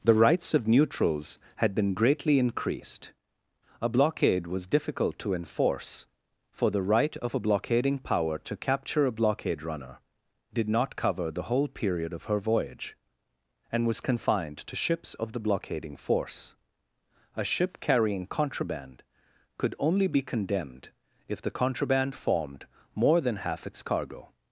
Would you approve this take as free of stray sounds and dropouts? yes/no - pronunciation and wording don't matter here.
yes